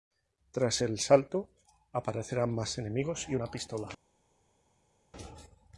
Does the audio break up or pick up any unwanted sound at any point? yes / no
no